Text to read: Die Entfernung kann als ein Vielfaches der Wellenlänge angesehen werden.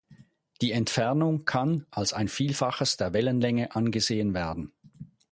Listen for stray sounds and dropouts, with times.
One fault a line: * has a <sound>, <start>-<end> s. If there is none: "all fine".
all fine